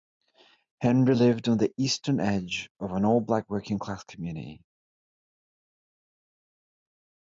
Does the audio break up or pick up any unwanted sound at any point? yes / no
no